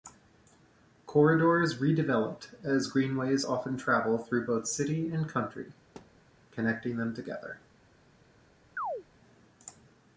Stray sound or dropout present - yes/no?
yes